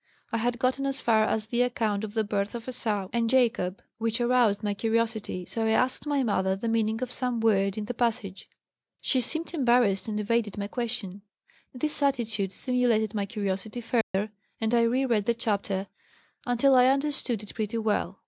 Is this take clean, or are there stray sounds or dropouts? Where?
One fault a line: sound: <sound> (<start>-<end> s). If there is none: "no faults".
sound: dropout (14.0-14.1 s)